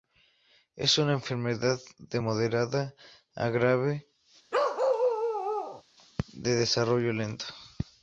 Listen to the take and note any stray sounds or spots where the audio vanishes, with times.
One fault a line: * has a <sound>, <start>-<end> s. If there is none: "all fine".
* has a bark, 4.5-5.8 s